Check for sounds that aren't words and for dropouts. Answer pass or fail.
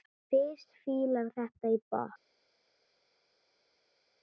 pass